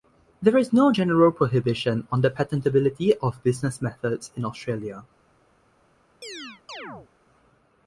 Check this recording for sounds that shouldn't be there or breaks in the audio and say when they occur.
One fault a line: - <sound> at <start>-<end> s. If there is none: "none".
- chirp at 6.2-7.1 s